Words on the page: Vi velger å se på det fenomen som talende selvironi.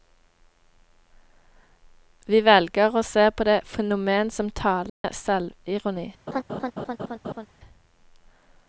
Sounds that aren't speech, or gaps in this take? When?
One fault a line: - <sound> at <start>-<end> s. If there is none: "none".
- dropout at 4.9-5.0 s
- laugh at 6.3-7.5 s